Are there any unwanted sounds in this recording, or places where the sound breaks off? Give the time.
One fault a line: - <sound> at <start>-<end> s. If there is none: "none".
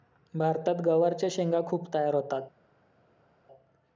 none